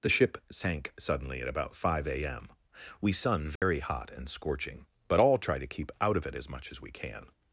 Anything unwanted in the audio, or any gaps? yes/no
yes